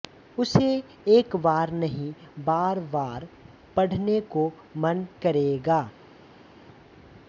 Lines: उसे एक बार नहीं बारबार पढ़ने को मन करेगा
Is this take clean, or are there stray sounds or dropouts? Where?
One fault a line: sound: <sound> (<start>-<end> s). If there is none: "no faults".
no faults